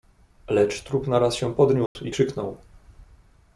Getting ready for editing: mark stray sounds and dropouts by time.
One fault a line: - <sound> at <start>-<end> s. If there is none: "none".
- dropout at 1.9-2.0 s